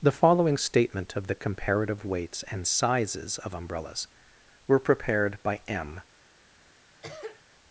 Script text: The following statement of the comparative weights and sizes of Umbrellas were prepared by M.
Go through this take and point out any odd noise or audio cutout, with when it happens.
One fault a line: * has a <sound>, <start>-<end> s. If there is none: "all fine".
* has a cough, 7.0-7.4 s